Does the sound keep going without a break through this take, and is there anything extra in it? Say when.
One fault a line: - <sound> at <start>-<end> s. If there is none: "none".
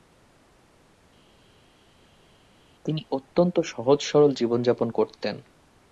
none